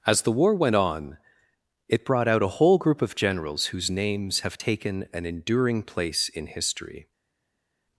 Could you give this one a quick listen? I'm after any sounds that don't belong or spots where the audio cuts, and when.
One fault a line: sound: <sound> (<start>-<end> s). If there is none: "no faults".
no faults